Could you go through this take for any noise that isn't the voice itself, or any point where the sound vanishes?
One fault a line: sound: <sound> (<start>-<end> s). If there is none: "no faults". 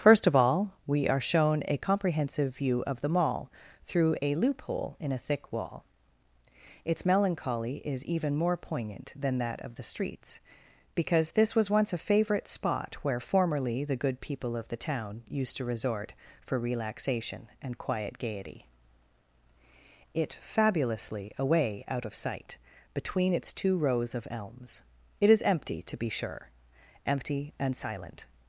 no faults